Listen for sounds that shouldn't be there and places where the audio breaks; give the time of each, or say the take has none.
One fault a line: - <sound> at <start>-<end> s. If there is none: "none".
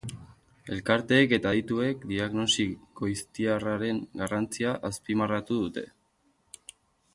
none